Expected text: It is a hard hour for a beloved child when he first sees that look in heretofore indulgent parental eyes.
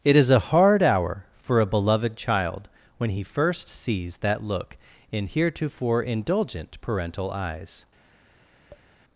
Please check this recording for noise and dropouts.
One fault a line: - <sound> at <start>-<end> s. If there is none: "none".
- tap at 8.7-8.9 s